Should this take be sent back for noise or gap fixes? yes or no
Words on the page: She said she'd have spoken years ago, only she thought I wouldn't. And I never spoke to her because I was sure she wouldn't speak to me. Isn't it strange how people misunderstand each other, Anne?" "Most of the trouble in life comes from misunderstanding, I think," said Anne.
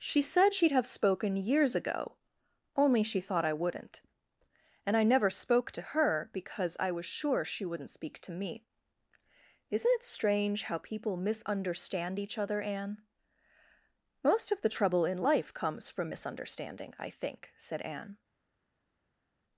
no